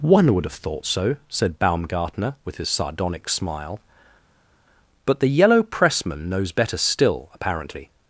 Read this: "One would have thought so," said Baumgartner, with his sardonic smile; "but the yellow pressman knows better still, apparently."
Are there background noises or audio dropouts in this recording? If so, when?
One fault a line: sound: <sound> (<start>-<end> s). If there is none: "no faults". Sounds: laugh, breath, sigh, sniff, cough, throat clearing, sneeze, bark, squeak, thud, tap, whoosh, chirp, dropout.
no faults